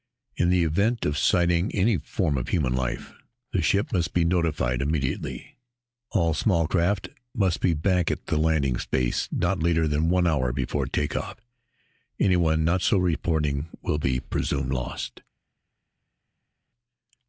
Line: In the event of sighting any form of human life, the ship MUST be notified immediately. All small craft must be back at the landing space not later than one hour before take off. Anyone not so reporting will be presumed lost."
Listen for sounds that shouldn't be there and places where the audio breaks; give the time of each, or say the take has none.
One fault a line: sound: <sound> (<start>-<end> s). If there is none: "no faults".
no faults